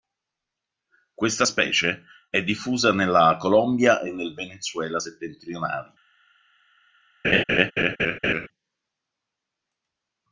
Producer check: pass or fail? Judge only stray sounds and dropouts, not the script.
fail